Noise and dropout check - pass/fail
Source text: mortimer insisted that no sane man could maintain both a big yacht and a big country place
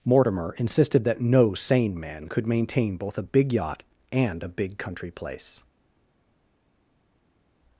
pass